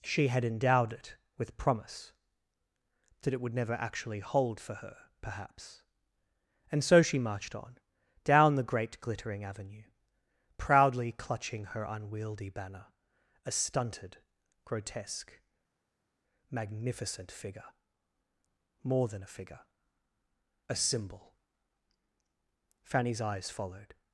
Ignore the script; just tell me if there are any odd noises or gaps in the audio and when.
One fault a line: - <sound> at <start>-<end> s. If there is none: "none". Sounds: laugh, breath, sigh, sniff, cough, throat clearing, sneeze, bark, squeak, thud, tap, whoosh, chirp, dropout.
none